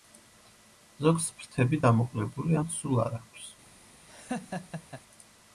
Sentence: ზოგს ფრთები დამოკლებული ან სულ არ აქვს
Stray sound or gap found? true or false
true